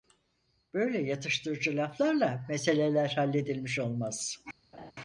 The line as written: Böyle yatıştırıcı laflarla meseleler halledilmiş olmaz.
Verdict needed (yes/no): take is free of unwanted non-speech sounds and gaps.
no